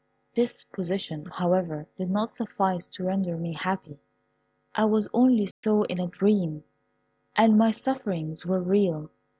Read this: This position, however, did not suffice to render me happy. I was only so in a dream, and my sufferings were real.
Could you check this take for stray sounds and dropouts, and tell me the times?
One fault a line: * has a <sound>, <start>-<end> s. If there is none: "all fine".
* has a dropout, 5.5-5.6 s